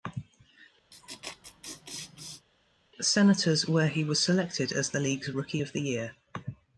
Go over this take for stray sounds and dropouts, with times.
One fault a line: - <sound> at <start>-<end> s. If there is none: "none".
- laugh at 0.9-2.5 s